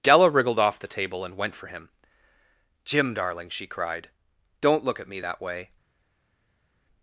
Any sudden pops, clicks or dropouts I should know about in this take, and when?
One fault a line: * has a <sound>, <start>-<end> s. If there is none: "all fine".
all fine